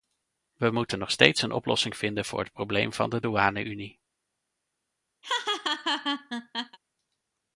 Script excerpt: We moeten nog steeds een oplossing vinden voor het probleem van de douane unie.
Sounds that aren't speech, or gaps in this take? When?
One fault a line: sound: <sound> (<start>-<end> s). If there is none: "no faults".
sound: laugh (5.2-6.8 s)